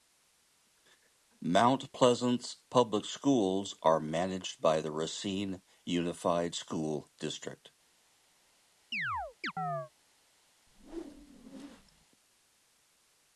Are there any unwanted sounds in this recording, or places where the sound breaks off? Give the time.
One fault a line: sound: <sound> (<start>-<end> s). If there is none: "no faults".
sound: chirp (8.9-9.9 s)
sound: whoosh (10.7-12.1 s)